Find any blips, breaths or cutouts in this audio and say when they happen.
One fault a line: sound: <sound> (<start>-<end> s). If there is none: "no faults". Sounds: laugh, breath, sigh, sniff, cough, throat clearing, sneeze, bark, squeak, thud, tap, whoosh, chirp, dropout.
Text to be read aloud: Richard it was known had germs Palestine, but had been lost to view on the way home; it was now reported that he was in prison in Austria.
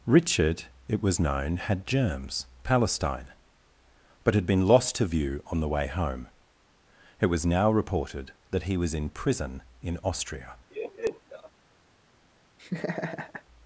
sound: laugh (10.7-11.5 s)
sound: laugh (12.6-13.4 s)